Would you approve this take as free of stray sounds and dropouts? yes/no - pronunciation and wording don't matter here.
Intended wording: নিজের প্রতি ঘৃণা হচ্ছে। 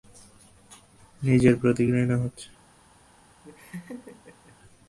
no